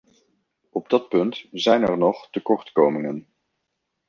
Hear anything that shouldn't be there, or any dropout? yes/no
no